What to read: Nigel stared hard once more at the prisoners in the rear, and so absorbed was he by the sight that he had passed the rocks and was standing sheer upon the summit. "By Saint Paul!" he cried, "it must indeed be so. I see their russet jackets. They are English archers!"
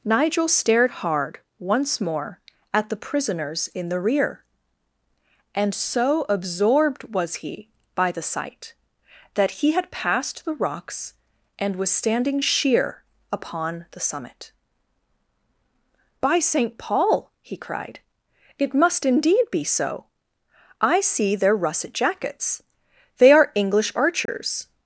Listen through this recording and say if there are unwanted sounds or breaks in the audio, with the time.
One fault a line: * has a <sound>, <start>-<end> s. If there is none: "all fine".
* has a dropout, 24.3-24.3 s